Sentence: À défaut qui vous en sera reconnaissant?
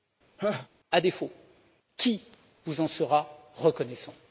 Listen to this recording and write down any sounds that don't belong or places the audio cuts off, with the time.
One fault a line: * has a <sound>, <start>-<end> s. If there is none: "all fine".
* has a laugh, 0.4-0.7 s